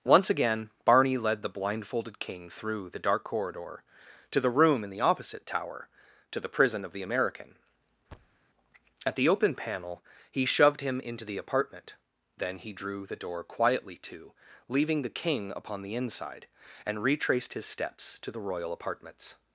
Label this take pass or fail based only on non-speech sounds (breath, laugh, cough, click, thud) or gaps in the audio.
fail